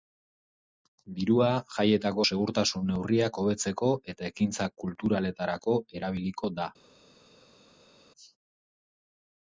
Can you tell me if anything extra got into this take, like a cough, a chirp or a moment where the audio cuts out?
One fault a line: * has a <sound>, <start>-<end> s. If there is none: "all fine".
all fine